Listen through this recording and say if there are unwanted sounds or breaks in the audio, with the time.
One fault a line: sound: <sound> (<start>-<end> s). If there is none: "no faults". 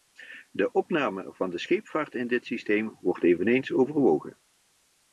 no faults